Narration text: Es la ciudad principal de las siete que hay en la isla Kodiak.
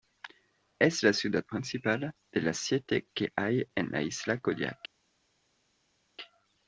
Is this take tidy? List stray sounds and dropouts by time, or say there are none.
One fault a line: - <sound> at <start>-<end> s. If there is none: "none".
none